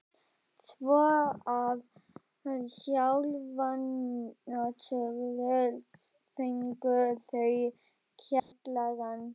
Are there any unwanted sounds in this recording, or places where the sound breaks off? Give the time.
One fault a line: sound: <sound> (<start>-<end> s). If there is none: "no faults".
sound: dropout (8.4-8.5 s)